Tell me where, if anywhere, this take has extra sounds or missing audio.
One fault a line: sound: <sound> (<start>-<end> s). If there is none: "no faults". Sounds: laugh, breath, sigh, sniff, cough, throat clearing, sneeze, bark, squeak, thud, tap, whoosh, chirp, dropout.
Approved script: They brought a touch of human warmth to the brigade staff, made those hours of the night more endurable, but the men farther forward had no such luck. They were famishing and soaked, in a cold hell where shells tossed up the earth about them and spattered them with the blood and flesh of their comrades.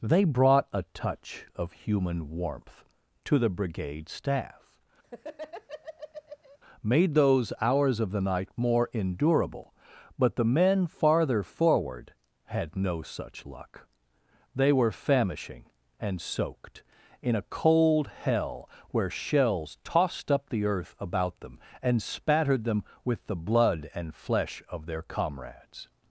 sound: laugh (5.0-6.6 s)